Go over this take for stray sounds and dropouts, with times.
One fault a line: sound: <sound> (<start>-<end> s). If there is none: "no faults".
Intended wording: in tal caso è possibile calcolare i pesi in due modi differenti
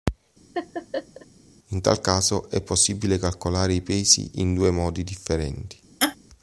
sound: laugh (0.5-1.3 s)
sound: laugh (6.0-6.2 s)